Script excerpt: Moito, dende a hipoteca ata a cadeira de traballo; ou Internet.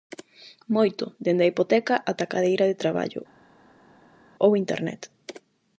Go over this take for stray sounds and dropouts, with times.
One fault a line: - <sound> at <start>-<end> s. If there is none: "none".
none